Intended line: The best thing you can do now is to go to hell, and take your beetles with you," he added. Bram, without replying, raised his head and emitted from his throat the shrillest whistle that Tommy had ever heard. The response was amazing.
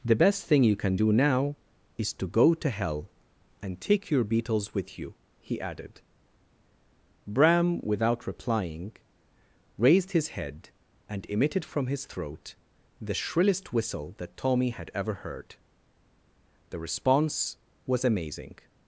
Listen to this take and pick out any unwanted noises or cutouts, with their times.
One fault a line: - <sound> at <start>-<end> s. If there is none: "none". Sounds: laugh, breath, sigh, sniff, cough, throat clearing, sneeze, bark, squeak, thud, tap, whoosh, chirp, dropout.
none